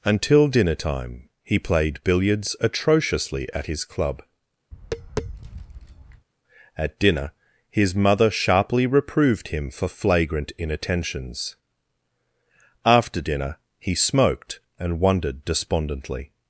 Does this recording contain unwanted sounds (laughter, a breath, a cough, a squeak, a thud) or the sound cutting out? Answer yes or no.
yes